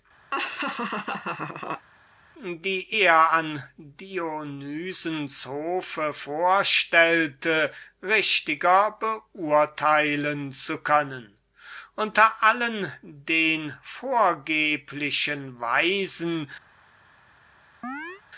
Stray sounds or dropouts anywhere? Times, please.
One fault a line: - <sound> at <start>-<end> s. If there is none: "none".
- laugh at 0.3-1.9 s
- chirp at 17.8-18.2 s